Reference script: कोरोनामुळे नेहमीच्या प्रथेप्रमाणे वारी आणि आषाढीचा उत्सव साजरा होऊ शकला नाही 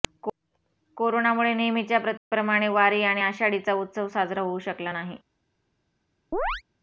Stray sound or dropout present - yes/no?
yes